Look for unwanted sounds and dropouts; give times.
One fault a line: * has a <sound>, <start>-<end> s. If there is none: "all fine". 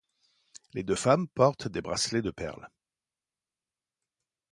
all fine